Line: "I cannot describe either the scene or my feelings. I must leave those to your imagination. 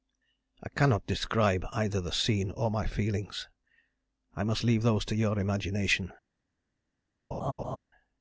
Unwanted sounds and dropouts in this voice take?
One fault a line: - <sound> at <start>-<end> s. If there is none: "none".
- laugh at 7.3-7.8 s